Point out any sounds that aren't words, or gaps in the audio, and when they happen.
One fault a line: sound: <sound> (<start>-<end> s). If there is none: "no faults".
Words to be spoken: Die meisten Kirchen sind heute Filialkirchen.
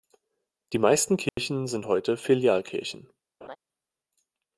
sound: dropout (1.3-1.4 s)
sound: laugh (3.4-3.6 s)